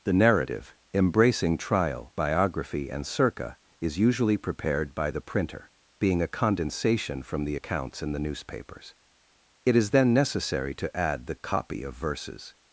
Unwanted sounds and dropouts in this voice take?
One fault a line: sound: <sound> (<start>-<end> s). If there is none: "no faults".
no faults